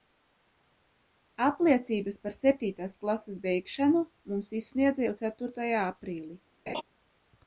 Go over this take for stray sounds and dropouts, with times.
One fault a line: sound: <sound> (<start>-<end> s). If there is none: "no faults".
sound: laugh (6.7-6.8 s)